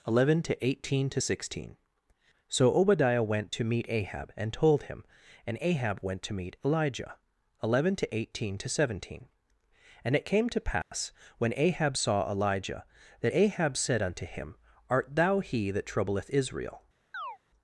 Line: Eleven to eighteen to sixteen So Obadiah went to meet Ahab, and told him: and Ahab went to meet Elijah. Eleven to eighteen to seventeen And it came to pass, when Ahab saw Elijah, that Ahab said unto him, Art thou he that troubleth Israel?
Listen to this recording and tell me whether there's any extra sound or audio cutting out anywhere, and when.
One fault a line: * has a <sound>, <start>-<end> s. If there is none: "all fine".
* has a dropout, 10.8-10.9 s
* has a chirp, 17.1-17.4 s